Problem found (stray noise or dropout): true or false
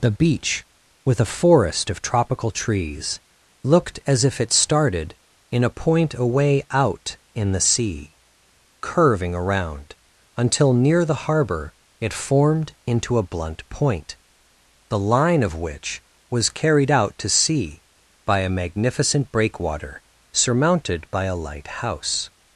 false